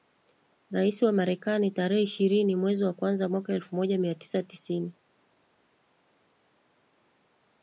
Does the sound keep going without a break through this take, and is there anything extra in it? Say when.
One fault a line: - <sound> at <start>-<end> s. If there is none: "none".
none